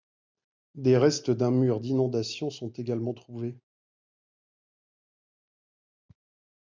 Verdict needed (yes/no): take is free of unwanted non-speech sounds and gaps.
yes